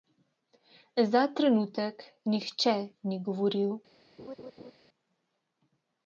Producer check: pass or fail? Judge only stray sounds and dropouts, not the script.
fail